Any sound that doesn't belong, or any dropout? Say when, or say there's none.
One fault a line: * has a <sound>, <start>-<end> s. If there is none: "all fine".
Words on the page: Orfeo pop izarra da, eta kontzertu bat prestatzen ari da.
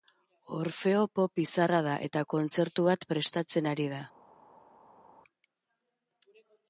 all fine